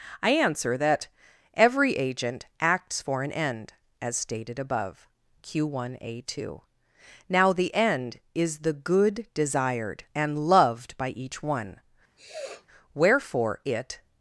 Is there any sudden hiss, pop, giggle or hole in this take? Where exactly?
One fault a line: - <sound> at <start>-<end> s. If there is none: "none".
- sniff at 12.2-12.7 s